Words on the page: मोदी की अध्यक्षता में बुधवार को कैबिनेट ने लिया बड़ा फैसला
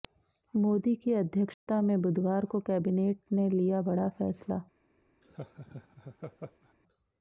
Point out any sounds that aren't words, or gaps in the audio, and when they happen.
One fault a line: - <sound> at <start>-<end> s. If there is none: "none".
- dropout at 1.5-1.7 s
- laugh at 5.2-6.7 s